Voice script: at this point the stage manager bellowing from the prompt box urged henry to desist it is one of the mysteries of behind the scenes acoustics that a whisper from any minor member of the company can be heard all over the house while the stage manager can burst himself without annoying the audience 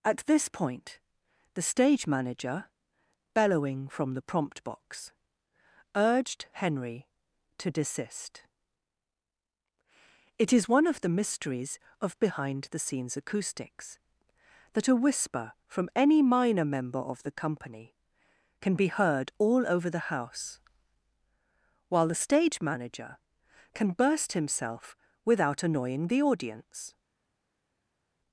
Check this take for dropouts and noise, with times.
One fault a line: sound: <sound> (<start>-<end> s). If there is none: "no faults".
no faults